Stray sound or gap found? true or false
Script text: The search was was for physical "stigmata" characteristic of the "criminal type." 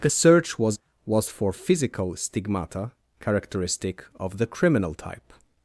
false